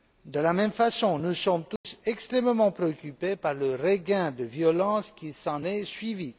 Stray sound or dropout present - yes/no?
yes